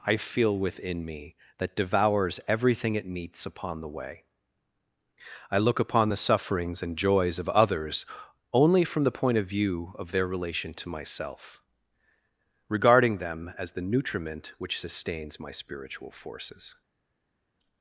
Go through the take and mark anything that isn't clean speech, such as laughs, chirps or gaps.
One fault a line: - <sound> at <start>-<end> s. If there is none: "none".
none